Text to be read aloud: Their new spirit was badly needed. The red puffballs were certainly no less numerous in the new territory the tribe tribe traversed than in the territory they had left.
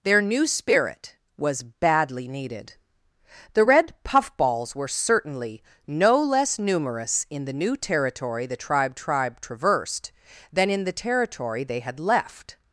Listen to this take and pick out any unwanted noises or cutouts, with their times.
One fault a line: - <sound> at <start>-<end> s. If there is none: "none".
none